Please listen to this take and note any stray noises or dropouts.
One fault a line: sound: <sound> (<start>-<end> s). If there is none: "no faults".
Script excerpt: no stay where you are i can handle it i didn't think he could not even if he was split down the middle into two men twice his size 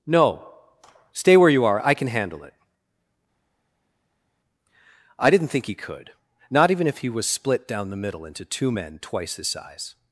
no faults